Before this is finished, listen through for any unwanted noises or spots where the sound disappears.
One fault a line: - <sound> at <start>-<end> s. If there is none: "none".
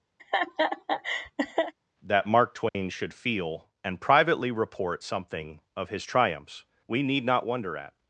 - laugh at 0.2-1.7 s
- dropout at 2.7-2.7 s